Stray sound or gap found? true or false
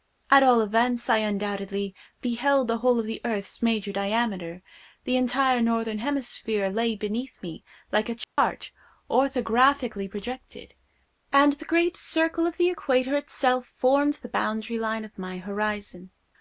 true